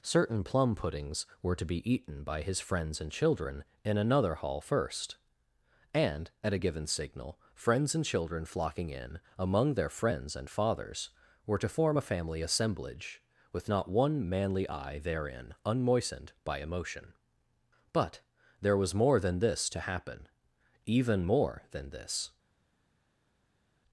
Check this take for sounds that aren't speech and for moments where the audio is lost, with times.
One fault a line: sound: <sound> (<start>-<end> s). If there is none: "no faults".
no faults